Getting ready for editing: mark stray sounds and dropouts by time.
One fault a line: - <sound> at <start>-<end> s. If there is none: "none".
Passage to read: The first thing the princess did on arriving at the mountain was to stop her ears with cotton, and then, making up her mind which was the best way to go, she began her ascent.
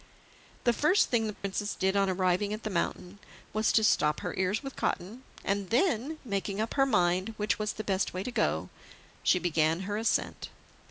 - dropout at 1.3-1.4 s